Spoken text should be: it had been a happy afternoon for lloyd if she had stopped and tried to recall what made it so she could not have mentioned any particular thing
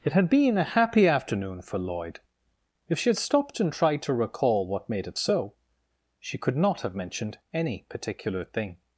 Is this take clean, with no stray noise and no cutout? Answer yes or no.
yes